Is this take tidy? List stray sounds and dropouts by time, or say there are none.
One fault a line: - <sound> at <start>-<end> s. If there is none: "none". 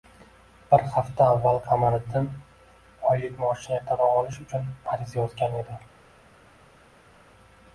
none